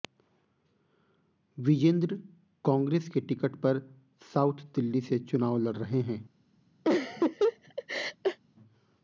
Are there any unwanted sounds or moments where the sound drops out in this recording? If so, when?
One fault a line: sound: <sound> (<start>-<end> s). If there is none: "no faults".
sound: laugh (6.8-8.4 s)